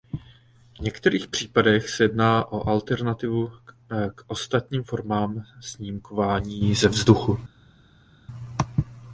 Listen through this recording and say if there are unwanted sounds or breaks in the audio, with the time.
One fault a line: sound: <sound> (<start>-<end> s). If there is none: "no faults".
no faults